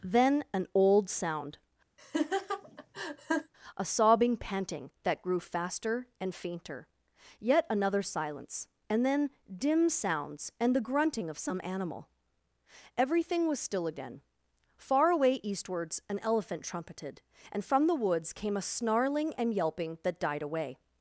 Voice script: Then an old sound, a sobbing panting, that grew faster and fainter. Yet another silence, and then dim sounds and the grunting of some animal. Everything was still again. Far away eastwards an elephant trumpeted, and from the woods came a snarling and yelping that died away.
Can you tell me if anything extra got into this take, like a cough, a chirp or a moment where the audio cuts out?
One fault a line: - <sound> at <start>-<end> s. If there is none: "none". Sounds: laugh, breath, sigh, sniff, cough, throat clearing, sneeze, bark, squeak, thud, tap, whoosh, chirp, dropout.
- laugh at 2.0-3.5 s